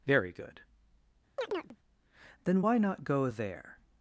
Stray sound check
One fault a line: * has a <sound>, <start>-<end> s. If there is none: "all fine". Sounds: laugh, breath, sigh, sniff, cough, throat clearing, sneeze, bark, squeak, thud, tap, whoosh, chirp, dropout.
* has a chirp, 1.4-1.8 s